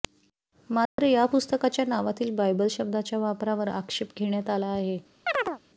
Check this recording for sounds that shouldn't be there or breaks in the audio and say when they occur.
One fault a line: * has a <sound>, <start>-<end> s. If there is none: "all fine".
* has a dropout, 0.9-1.0 s
* has a chirp, 5.3-5.6 s